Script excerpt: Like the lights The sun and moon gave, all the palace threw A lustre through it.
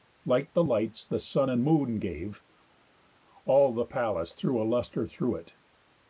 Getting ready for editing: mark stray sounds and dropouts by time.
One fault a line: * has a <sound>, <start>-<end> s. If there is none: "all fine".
all fine